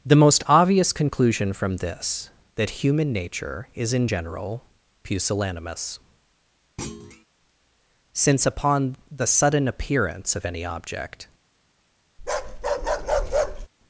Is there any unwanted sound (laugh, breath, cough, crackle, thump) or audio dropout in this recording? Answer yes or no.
yes